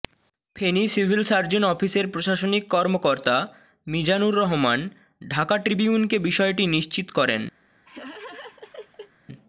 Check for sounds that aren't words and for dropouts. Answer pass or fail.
fail